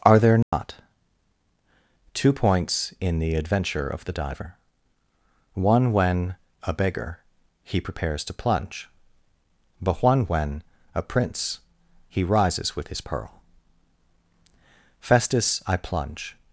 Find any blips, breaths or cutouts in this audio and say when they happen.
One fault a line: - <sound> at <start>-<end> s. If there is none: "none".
- dropout at 0.4-0.5 s